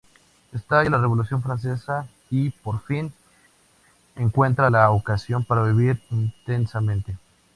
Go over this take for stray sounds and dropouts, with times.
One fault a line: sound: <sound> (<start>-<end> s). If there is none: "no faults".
no faults